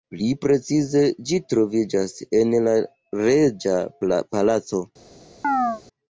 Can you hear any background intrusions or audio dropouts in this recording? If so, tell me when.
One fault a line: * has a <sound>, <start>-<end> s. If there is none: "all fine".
* has a chirp, 5.4-5.8 s